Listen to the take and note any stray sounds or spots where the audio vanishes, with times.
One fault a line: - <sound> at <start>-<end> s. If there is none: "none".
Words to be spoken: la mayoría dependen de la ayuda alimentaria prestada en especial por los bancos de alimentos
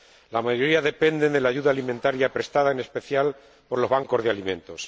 none